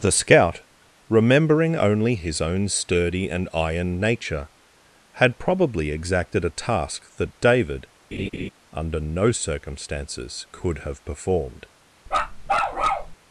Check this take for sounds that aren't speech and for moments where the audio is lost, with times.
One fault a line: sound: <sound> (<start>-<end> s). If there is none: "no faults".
sound: laugh (8.1-8.5 s)
sound: bark (12.1-13.2 s)